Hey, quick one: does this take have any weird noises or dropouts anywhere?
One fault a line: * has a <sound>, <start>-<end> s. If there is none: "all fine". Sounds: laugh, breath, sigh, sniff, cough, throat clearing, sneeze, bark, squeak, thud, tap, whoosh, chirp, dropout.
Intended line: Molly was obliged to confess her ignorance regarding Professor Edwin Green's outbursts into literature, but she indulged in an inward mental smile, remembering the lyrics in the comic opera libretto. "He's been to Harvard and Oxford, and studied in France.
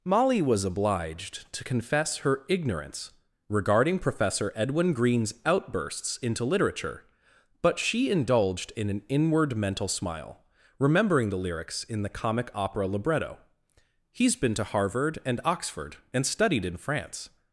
all fine